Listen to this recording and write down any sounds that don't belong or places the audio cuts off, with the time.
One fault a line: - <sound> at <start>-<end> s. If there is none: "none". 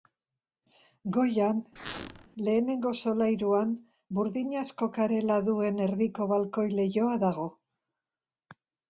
- squeak at 1.8-2.3 s